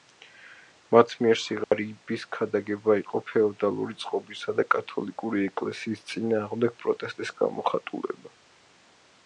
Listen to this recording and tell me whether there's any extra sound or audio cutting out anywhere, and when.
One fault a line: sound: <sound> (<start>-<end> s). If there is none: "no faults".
sound: dropout (1.6-1.7 s)